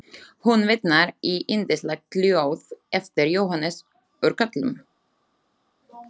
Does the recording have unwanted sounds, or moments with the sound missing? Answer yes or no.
no